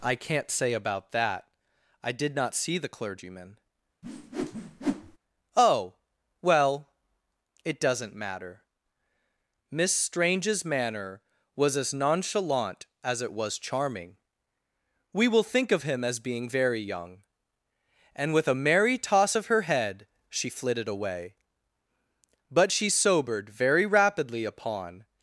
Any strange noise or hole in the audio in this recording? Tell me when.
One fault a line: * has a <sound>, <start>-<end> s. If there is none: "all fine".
* has a whoosh, 4.0-5.2 s